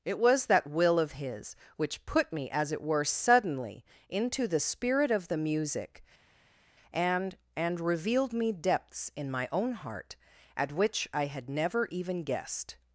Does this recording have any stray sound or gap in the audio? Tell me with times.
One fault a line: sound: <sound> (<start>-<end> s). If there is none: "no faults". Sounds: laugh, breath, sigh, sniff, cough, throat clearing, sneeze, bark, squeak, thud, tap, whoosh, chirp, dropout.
no faults